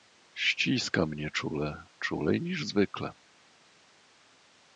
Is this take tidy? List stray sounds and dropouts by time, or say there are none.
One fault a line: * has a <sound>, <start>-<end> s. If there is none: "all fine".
all fine